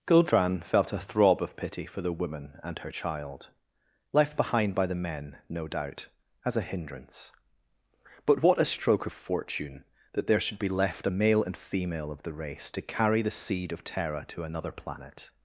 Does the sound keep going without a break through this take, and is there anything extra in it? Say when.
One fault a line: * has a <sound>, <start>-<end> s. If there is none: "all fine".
all fine